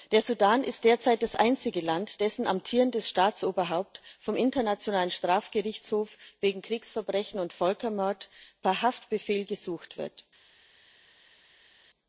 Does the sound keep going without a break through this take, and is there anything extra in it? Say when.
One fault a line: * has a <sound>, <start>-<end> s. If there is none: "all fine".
all fine